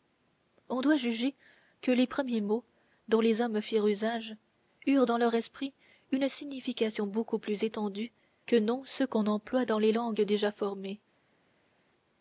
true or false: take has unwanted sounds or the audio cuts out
false